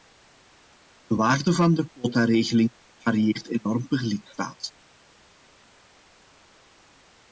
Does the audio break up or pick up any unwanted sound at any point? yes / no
no